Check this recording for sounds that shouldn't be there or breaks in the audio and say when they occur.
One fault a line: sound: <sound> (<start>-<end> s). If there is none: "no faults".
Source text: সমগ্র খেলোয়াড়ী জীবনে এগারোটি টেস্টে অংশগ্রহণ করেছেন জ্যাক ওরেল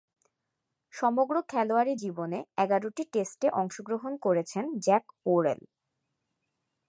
no faults